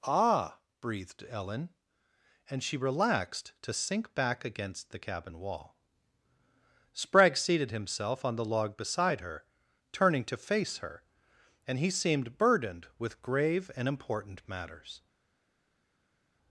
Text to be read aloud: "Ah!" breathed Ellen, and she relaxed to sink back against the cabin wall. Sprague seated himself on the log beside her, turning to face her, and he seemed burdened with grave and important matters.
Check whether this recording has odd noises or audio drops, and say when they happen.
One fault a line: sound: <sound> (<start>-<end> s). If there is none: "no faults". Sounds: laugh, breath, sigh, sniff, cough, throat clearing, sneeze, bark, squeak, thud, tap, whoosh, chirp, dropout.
no faults